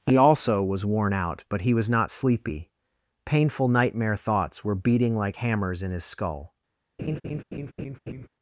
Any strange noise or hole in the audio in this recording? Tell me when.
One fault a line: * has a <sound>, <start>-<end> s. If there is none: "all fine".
* has a laugh, 7.0-8.3 s